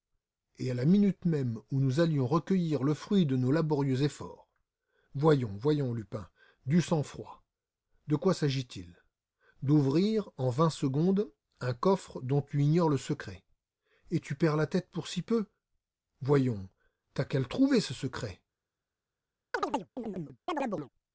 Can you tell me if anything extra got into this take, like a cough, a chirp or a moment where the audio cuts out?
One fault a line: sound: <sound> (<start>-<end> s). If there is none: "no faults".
sound: chirp (19.5-20.9 s)